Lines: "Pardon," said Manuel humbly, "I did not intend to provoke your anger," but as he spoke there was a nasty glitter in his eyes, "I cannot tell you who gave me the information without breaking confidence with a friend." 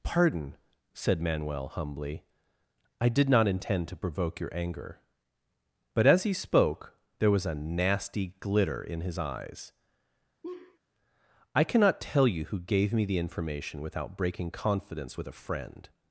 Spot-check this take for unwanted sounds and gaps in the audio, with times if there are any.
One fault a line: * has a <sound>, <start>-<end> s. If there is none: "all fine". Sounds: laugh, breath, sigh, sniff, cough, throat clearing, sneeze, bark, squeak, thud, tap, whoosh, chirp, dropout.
* has a laugh, 10.4-10.8 s